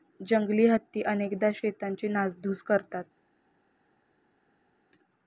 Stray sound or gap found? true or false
false